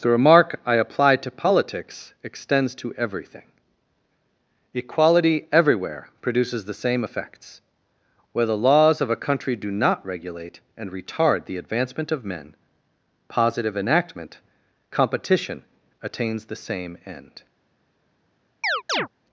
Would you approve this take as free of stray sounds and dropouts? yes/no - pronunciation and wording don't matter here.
no